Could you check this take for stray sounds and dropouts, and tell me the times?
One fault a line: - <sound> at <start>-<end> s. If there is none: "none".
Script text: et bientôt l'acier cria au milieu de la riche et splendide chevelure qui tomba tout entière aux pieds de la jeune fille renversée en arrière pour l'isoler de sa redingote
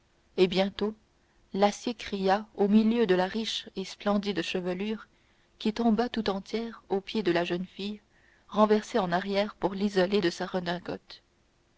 none